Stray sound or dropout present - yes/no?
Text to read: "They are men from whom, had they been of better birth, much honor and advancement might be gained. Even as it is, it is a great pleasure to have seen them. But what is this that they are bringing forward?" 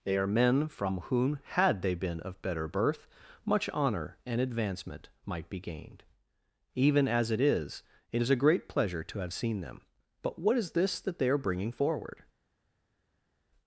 no